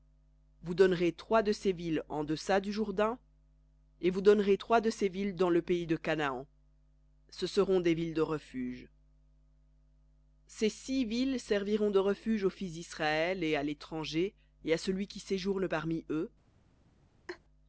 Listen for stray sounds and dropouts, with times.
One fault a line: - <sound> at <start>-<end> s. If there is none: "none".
- laugh at 17.3-17.4 s